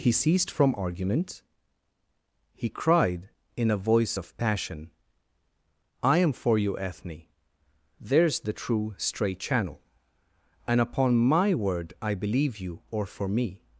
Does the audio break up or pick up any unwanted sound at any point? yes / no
no